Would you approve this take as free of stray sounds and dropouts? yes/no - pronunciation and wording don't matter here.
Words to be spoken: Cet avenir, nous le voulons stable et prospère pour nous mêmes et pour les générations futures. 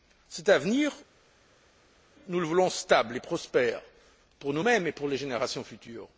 yes